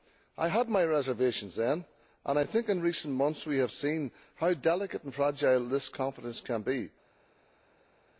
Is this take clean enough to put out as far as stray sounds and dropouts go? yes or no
yes